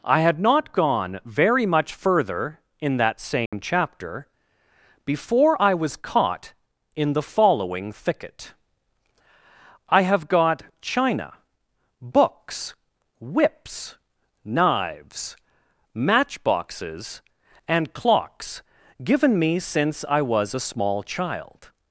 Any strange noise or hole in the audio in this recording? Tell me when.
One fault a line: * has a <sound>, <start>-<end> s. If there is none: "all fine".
* has a dropout, 3.5-3.5 s